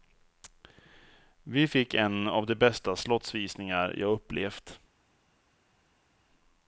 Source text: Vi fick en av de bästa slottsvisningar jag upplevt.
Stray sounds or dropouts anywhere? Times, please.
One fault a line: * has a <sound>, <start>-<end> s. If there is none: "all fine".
all fine